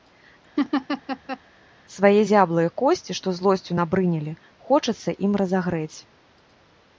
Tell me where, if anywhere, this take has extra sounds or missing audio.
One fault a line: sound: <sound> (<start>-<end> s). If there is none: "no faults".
sound: laugh (0.6-1.4 s)